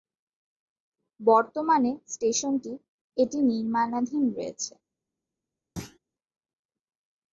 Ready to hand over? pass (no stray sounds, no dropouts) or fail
fail